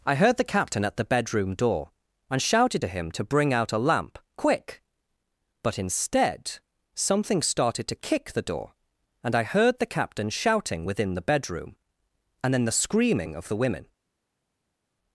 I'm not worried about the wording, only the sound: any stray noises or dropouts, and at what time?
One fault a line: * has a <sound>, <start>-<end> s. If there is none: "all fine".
all fine